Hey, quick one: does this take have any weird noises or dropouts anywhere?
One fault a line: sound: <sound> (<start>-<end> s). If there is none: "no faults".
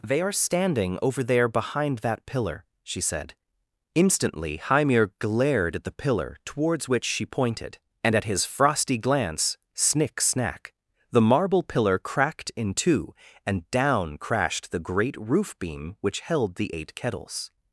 no faults